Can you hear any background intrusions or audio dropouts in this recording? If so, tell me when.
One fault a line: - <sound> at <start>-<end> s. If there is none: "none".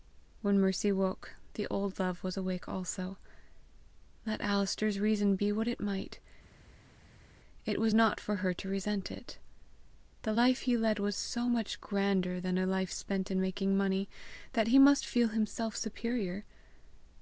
none